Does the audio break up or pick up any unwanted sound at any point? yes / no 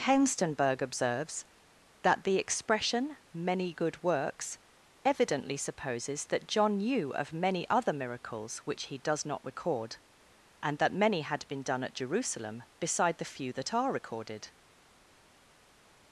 no